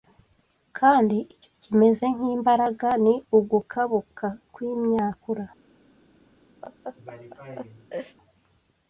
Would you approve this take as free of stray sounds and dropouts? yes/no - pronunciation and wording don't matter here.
no